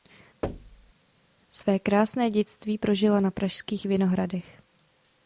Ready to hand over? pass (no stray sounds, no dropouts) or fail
fail